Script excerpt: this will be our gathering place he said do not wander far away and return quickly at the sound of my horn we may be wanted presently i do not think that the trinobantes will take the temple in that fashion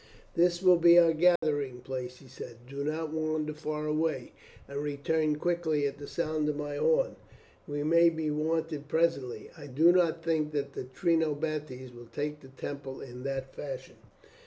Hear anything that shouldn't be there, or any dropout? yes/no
yes